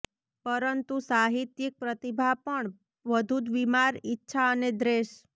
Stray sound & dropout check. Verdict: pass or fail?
pass